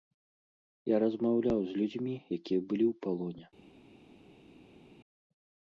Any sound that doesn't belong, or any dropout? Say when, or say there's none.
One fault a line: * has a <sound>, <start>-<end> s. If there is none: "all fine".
all fine